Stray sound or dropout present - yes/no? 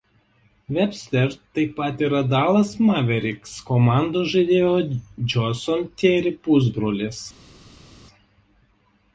no